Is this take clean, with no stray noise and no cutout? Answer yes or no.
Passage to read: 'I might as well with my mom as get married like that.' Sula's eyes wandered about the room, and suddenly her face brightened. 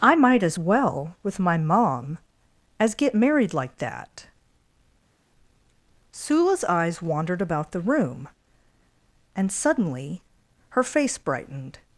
yes